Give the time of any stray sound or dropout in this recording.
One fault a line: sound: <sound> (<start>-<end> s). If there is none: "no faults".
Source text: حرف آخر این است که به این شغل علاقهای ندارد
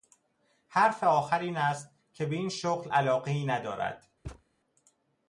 sound: thud (4.2-4.4 s)